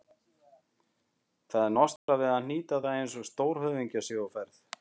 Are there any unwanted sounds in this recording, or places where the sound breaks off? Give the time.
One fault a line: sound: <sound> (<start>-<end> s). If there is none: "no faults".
sound: dropout (2.0-2.1 s)